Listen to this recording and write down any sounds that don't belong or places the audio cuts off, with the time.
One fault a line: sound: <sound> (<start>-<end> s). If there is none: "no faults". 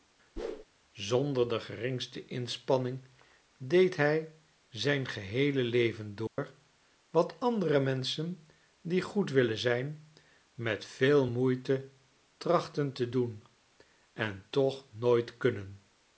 sound: whoosh (0.4-0.6 s)
sound: dropout (6.3-6.4 s)